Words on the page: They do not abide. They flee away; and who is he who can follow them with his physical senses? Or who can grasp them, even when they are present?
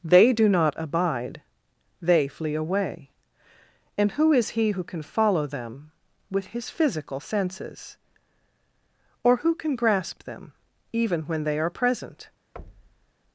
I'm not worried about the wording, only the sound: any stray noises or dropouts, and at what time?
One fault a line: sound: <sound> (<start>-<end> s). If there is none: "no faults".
sound: thud (12.6-13.1 s)